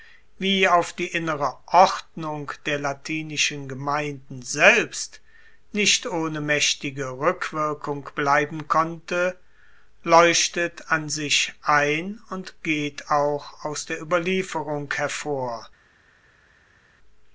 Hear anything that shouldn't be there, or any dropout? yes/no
no